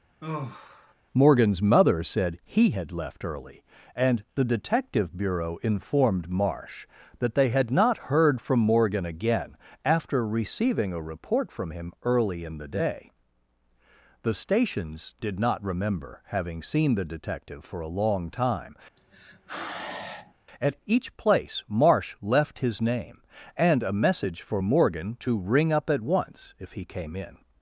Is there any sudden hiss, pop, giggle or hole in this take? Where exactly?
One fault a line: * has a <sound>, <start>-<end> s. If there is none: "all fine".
* has a sigh, 0.2-0.9 s
* has a sigh, 19.0-20.3 s